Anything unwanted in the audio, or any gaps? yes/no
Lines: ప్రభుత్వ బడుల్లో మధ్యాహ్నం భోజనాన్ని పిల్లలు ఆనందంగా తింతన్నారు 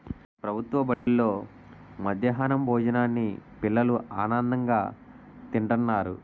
yes